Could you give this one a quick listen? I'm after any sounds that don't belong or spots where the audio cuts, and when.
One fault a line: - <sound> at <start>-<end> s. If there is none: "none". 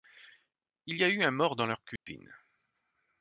- dropout at 2.0-2.1 s